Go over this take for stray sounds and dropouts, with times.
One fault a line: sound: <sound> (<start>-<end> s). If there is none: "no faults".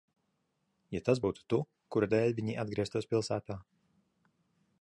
no faults